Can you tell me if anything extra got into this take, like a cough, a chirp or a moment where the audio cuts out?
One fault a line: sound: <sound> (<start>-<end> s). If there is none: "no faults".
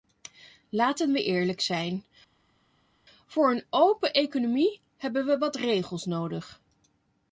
no faults